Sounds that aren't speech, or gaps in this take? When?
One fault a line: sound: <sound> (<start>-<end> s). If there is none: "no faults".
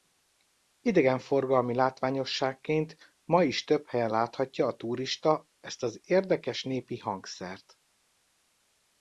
no faults